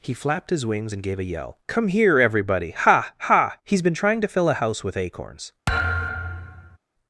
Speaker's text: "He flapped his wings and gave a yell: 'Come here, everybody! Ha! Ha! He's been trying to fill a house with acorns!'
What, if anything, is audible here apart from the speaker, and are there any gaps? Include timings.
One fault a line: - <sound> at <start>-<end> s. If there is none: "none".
- thud at 5.7-6.8 s